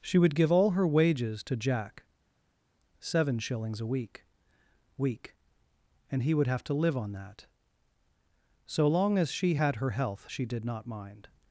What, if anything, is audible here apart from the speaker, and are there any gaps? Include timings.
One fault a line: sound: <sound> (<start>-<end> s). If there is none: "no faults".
no faults